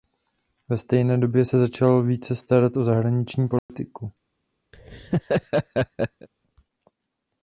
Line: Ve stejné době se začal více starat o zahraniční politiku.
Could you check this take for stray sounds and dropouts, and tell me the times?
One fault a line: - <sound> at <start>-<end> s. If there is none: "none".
- dropout at 3.6-3.7 s
- laugh at 4.7-6.3 s